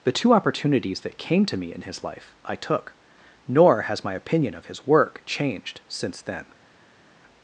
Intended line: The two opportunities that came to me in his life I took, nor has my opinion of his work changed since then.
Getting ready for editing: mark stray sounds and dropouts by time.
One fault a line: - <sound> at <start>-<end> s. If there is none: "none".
none